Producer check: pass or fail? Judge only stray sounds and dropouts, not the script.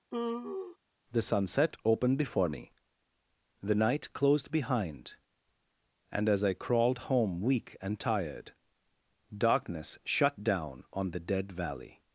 fail